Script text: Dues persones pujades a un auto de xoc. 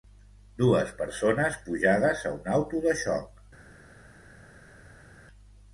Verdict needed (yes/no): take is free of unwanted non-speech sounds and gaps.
yes